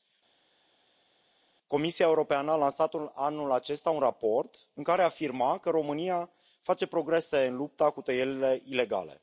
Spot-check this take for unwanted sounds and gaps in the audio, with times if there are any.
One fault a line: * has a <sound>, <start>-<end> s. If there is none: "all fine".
all fine